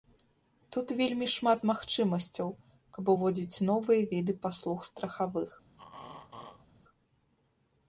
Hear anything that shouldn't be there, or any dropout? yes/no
yes